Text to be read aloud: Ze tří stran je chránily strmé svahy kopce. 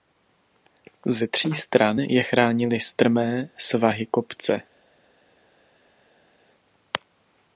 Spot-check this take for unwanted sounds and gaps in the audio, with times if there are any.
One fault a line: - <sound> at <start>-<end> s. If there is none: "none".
none